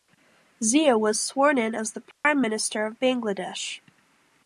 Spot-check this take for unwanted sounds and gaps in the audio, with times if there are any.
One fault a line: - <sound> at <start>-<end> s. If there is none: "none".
- dropout at 2.1-2.3 s